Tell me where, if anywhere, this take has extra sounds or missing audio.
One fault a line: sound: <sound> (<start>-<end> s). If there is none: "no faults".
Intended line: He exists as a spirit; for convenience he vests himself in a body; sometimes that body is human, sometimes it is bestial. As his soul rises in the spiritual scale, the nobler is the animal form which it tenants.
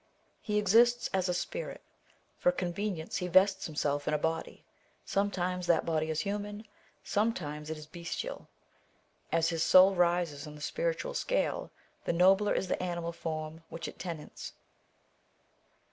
no faults